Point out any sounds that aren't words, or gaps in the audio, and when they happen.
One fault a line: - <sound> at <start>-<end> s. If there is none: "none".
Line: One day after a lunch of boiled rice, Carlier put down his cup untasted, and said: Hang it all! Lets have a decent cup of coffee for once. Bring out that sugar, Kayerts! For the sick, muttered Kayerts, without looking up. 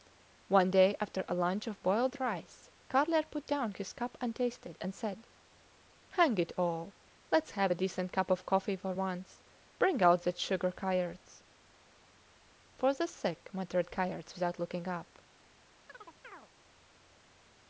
- chirp at 15.9-16.5 s